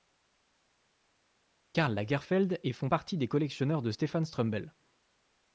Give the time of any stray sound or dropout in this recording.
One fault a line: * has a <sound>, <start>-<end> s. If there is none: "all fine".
all fine